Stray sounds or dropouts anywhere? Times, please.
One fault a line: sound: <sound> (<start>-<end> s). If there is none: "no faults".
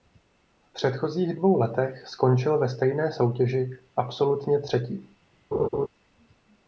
sound: laugh (5.5-5.9 s)